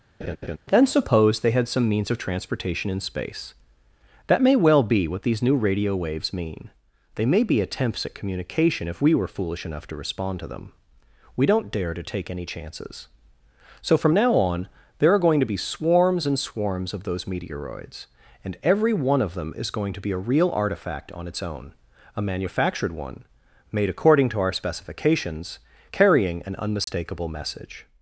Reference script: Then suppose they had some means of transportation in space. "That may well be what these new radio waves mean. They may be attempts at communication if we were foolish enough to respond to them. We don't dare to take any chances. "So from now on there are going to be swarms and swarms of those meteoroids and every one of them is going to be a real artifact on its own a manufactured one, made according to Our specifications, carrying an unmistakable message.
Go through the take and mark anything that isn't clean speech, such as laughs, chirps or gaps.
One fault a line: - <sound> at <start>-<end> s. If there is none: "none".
- laugh at 0.2-0.6 s
- dropout at 26.8-26.9 s